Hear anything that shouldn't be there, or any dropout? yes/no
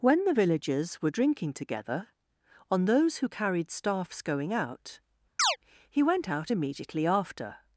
yes